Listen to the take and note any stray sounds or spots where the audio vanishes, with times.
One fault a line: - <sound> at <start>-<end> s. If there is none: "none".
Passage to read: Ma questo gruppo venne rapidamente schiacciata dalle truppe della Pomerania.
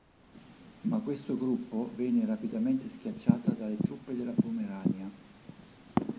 none